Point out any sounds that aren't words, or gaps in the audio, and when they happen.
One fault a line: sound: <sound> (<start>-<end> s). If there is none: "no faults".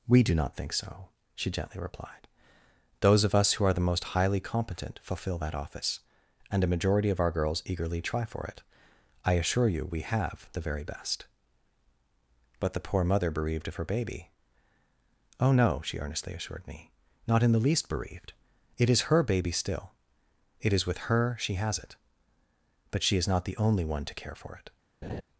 sound: laugh (25.0-25.2 s)